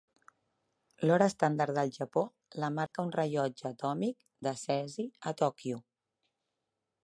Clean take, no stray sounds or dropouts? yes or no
no